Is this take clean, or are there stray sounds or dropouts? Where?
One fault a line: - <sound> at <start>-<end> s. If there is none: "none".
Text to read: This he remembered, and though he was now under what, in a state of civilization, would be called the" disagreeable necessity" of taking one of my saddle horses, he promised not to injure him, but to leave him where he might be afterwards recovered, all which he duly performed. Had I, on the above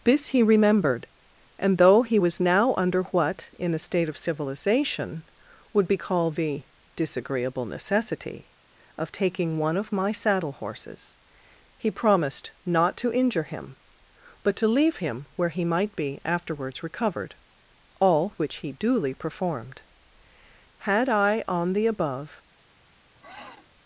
- sniff at 23.2-23.7 s